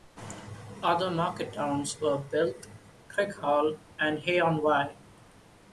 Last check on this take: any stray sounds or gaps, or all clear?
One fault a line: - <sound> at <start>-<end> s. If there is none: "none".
none